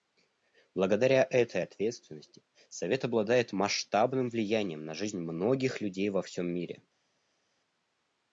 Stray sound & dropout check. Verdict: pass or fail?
pass